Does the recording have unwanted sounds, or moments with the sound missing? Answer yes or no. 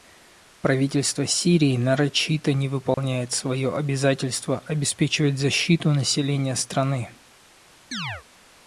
yes